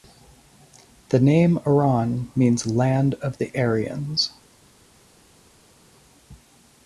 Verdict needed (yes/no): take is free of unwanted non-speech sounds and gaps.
yes